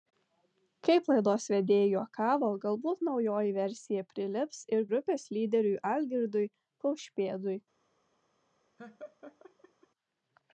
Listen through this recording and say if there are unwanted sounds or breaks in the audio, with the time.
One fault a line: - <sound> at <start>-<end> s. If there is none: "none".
- laugh at 8.8-9.9 s